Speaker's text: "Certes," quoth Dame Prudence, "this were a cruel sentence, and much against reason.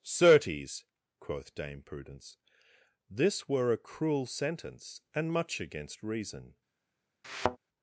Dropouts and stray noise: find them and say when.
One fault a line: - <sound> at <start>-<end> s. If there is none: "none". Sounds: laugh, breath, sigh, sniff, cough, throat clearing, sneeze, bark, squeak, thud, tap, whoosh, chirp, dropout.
- thud at 7.2-7.6 s